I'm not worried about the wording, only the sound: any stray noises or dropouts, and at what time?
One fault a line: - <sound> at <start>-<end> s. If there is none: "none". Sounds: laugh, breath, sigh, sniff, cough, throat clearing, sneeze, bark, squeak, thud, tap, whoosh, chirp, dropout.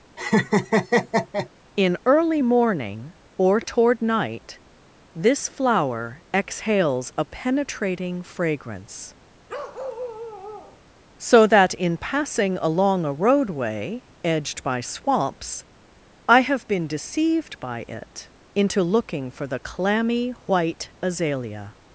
- laugh at 0.2-1.5 s
- bark at 9.5-10.8 s